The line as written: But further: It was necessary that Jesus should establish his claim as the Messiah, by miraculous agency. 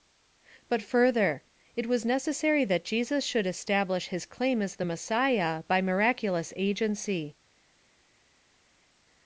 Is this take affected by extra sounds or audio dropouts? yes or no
no